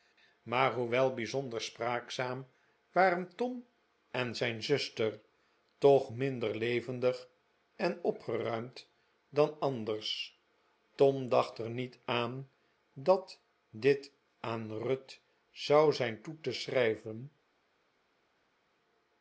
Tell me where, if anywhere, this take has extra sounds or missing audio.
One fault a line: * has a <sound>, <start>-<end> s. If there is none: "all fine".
all fine